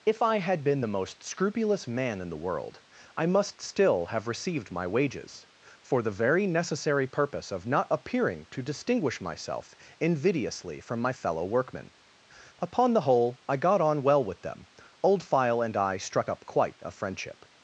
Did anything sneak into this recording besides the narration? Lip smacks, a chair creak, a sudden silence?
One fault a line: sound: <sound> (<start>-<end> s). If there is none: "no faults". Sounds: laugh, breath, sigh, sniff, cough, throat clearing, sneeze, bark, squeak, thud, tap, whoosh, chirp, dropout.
no faults